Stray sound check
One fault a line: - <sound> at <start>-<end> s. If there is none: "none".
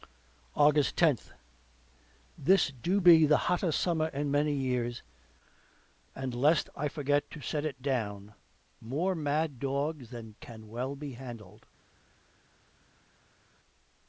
none